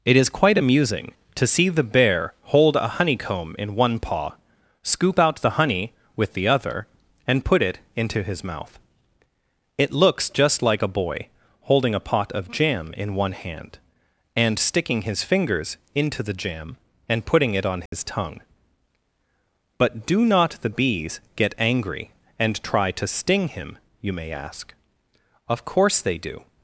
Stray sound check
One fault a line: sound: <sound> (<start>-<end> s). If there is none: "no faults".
sound: dropout (17.9-17.9 s)